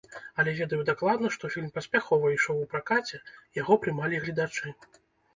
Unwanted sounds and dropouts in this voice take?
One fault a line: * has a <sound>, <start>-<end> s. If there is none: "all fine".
all fine